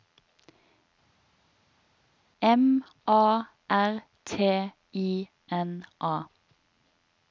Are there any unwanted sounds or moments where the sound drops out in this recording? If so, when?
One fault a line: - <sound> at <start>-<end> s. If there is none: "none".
none